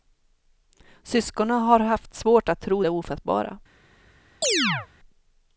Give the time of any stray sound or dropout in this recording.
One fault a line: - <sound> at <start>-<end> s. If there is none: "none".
- chirp at 4.4-4.9 s